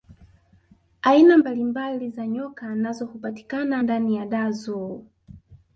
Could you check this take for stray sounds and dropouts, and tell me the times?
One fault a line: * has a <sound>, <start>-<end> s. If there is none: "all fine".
all fine